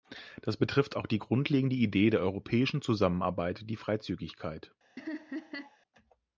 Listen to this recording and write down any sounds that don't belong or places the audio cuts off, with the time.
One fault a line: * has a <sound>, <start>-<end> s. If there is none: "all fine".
* has a laugh, 5.0-5.8 s